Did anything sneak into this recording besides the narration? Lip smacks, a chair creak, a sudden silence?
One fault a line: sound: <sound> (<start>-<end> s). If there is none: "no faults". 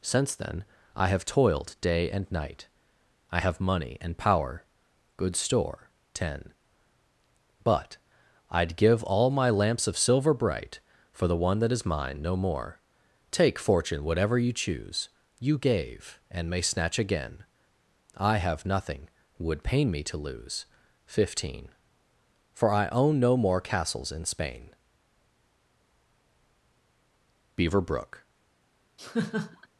sound: laugh (29.0-29.7 s)